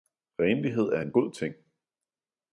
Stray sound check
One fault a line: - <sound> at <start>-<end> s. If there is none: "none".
none